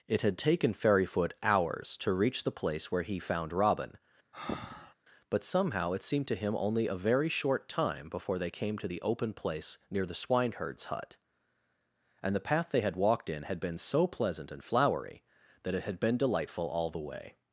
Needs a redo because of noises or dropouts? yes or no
yes